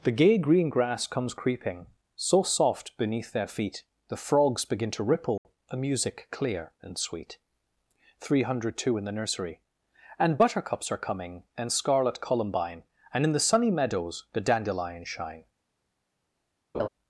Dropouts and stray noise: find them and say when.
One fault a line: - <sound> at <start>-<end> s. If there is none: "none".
- dropout at 5.4-5.4 s
- laugh at 16.7-16.9 s